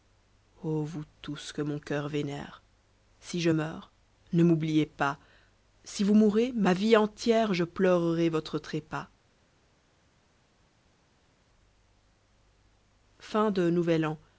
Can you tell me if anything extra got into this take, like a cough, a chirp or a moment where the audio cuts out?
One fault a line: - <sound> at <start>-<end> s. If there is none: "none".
none